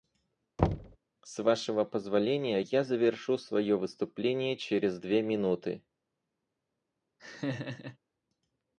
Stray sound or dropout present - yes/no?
yes